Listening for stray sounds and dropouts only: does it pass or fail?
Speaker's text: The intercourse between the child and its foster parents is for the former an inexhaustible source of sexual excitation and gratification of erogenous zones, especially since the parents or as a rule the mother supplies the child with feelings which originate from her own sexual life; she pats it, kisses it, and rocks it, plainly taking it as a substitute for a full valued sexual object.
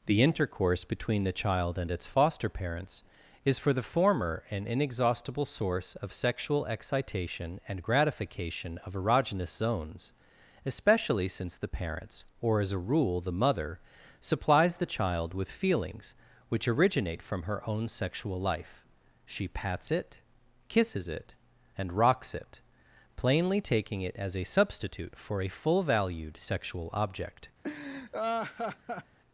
fail